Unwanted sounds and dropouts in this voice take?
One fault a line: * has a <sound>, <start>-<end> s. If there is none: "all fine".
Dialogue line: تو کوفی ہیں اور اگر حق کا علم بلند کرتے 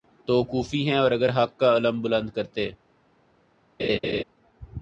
* has a laugh, 3.8-4.2 s